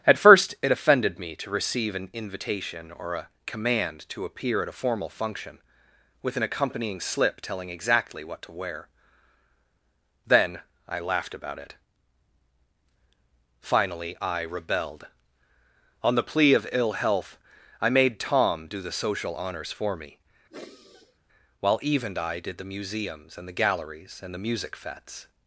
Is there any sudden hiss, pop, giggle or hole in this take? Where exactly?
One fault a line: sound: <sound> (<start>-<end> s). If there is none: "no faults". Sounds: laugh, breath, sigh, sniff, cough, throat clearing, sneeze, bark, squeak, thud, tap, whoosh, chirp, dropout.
sound: sigh (20.5-21.2 s)